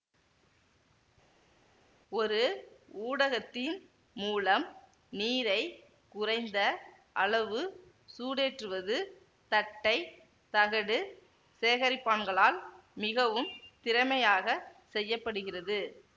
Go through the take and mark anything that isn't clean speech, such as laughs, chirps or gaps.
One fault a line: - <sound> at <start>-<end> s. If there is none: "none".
none